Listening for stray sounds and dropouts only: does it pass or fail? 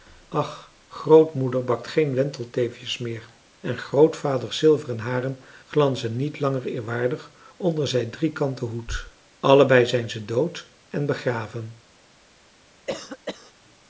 fail